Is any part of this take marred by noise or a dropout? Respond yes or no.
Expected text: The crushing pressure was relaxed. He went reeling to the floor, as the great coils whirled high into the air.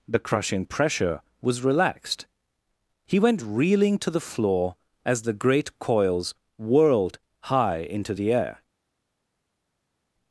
no